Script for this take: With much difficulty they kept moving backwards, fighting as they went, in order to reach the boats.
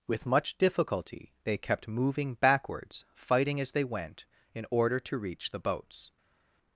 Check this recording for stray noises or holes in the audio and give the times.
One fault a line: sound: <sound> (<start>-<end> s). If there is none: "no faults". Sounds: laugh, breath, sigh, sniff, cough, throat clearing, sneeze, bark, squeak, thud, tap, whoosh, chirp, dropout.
no faults